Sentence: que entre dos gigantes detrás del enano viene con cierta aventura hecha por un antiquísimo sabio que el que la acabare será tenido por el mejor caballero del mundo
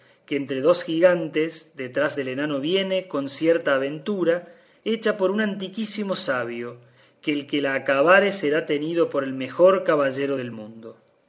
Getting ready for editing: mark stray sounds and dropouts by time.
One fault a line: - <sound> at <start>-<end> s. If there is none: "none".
none